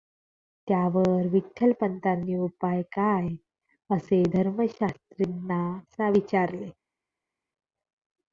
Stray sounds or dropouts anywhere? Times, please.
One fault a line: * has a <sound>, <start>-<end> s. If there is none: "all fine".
all fine